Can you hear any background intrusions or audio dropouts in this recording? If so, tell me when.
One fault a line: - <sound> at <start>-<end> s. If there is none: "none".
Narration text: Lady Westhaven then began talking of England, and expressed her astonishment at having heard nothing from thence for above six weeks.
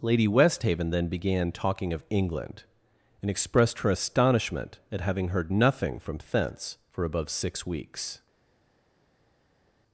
none